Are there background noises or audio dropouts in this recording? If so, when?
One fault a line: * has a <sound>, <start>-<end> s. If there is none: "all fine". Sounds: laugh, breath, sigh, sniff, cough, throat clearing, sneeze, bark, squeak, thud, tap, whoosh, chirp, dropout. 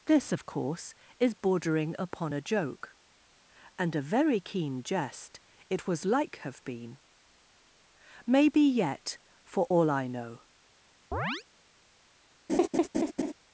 * has a chirp, 11.1-11.4 s
* has a laugh, 12.5-13.3 s